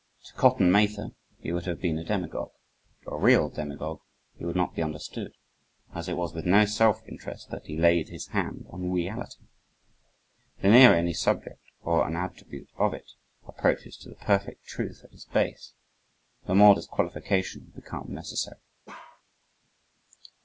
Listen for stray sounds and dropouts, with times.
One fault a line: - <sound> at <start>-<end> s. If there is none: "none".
- bark at 18.9-19.2 s